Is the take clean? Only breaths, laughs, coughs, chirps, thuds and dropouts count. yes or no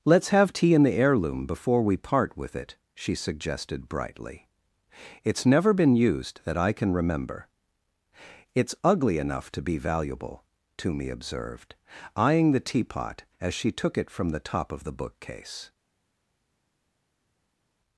yes